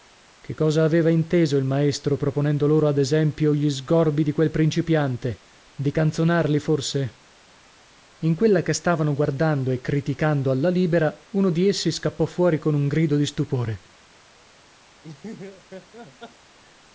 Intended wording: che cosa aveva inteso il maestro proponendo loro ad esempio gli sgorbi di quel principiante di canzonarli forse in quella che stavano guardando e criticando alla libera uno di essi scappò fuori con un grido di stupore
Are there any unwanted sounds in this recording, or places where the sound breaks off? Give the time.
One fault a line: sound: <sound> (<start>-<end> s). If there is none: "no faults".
sound: laugh (15.0-16.6 s)